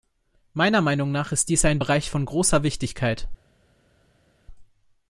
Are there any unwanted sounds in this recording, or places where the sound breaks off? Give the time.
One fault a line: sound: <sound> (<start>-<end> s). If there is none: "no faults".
no faults